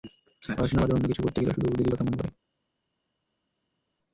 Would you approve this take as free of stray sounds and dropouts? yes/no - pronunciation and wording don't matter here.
yes